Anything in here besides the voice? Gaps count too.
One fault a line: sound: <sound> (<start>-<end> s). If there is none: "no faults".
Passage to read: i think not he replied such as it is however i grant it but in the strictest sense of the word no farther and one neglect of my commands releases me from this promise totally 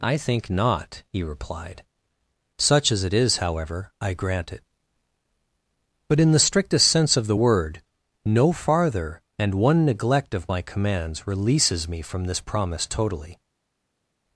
no faults